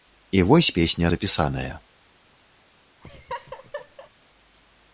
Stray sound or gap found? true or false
true